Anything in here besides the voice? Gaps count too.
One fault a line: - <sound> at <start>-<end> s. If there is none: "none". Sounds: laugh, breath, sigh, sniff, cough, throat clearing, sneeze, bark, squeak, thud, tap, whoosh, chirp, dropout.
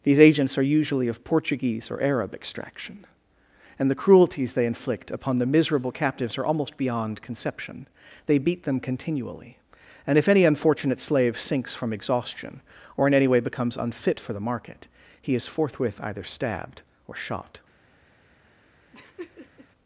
- laugh at 18.9-19.7 s